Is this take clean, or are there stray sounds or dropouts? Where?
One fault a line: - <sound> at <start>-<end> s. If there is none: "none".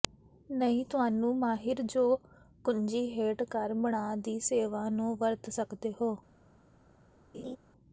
- laugh at 7.3-7.6 s